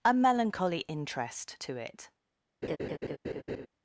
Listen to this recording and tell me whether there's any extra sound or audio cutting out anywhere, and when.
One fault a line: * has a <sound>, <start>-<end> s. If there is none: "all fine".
* has a laugh, 2.6-3.7 s